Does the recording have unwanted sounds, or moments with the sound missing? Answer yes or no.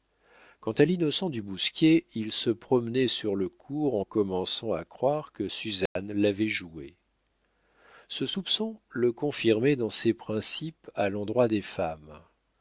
yes